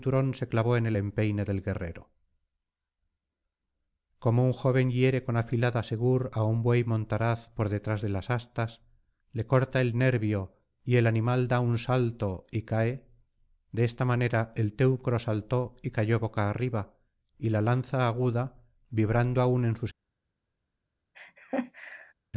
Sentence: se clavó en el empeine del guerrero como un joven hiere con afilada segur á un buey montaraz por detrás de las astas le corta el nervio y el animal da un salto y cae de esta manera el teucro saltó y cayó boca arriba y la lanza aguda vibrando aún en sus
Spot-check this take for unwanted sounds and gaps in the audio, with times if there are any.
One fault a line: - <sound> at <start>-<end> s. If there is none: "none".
- laugh at 21.1-22.1 s